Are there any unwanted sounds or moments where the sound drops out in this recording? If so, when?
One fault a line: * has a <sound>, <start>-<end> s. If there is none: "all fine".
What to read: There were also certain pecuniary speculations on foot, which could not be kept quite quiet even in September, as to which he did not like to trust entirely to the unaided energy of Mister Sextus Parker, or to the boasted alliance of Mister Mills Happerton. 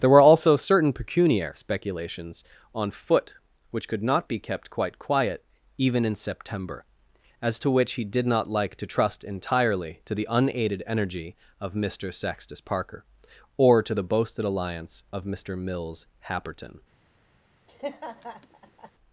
* has a laugh, 17.7-18.9 s